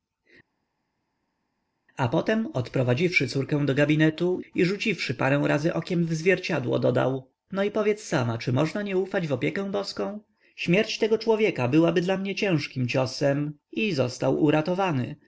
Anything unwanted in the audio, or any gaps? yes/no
no